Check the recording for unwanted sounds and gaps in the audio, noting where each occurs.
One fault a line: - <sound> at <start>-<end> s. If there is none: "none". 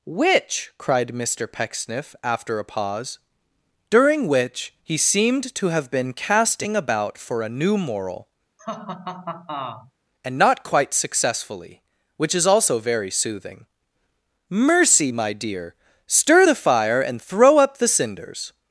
- laugh at 8.6-9.9 s